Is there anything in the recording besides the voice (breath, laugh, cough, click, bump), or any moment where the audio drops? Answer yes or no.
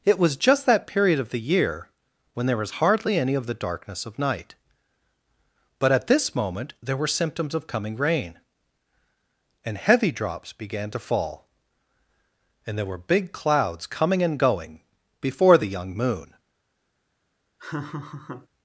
yes